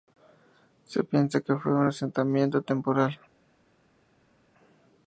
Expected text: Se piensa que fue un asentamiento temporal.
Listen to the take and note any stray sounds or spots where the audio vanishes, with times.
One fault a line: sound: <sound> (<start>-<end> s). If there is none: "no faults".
no faults